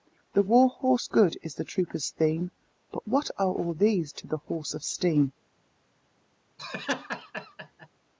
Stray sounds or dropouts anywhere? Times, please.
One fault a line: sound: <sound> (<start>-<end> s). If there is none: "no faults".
sound: laugh (6.6-7.9 s)